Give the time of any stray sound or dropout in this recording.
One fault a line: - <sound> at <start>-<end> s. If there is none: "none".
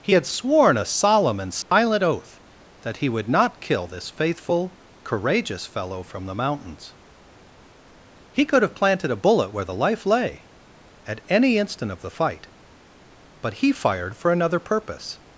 - dropout at 1.6-1.7 s